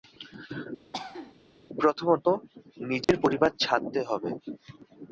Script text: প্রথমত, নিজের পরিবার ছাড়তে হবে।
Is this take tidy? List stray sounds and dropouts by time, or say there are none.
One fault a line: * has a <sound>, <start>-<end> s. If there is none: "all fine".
* has a cough, 0.9-1.3 s
* has a dropout, 3.0-3.1 s